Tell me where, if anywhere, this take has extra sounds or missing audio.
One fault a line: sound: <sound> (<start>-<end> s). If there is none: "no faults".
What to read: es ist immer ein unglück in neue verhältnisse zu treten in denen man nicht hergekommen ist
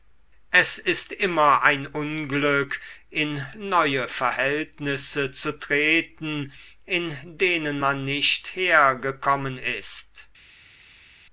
no faults